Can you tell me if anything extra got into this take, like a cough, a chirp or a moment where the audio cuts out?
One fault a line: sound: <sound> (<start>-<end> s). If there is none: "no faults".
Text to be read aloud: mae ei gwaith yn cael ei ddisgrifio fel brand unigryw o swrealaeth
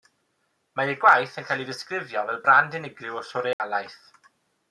sound: dropout (3.5-3.6 s)